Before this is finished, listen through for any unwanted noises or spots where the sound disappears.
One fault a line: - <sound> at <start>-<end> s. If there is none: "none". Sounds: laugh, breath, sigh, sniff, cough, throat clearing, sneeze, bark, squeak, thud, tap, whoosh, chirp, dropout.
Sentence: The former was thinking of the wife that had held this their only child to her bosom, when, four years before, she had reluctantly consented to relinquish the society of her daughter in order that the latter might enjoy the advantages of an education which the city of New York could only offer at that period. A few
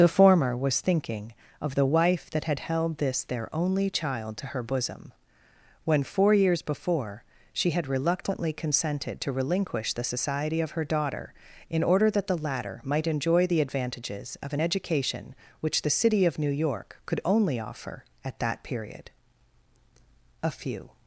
none